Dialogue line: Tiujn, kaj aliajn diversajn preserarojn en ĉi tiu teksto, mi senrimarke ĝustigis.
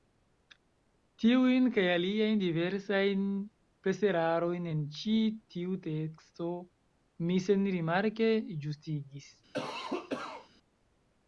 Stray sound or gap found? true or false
true